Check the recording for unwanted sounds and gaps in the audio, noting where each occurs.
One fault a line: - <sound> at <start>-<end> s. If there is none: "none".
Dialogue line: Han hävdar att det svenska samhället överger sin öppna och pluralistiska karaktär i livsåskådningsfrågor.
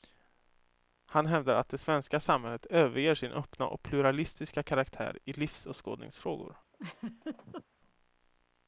- laugh at 6.7-7.6 s